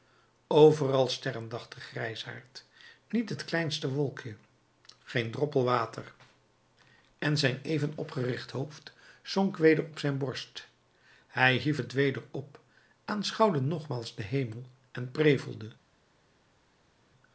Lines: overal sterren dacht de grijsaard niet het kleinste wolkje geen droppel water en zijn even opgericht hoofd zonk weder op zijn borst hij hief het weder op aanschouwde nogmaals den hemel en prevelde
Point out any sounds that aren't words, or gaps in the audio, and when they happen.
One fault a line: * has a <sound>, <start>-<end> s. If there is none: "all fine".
all fine